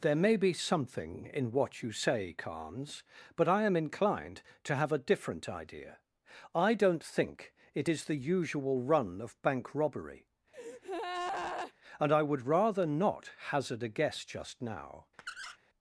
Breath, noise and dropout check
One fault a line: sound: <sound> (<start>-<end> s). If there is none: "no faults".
sound: breath (10.5-11.7 s)
sound: squeak (15.2-15.6 s)